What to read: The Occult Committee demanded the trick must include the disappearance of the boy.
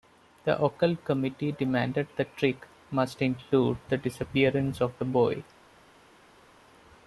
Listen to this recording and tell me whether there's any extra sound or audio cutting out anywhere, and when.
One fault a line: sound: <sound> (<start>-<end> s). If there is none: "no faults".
no faults